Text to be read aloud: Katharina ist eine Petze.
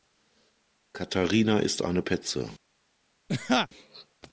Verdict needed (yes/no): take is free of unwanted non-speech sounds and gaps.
no